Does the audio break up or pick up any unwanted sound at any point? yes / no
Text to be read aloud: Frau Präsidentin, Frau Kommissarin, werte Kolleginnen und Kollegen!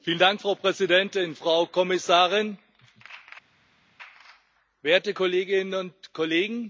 no